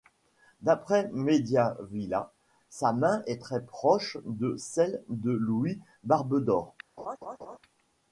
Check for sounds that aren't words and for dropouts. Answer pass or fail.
fail